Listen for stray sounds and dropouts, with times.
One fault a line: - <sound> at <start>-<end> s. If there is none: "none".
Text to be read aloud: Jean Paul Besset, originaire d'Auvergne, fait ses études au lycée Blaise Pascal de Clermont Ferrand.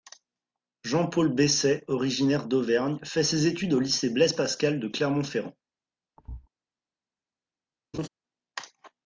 - thud at 6.2-6.5 s
- laugh at 7.9-8.1 s